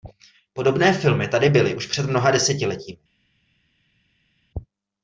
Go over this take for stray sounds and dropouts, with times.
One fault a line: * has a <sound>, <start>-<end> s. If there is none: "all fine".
all fine